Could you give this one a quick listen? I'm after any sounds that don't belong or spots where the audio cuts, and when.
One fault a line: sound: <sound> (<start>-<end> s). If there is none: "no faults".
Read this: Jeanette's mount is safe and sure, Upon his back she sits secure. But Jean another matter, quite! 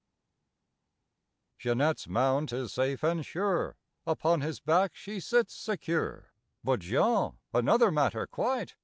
no faults